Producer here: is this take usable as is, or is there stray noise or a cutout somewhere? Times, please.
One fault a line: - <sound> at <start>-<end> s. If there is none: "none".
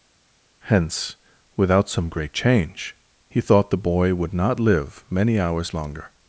none